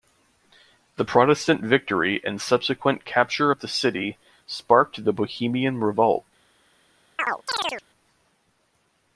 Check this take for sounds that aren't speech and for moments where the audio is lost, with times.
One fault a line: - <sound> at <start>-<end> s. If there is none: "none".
- chirp at 7.2-7.8 s